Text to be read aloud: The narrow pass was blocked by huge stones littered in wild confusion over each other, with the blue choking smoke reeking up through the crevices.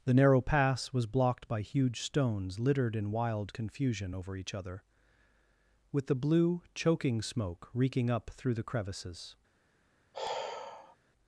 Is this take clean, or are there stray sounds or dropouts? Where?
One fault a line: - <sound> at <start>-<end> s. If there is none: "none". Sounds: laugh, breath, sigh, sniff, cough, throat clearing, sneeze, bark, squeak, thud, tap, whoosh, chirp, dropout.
- sigh at 10.1-11.0 s